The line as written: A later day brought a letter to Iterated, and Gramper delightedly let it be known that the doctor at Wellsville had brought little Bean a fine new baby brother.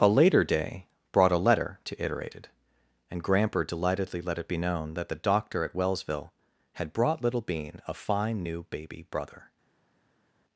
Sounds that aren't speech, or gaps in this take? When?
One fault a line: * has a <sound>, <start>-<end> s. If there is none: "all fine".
all fine